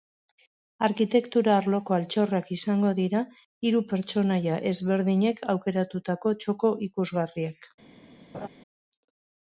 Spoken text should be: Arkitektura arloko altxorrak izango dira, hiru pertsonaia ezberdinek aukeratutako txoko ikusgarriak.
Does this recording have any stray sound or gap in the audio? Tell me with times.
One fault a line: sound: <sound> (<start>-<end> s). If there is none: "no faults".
sound: laugh (8.3-8.5 s)